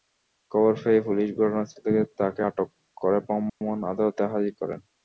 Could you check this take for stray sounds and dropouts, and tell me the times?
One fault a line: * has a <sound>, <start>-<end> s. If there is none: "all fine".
* has a dropout, 3.5-3.6 s